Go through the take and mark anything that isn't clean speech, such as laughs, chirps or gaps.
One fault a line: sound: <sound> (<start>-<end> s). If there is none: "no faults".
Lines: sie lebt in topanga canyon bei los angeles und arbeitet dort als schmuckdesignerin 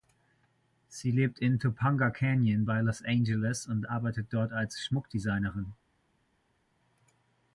no faults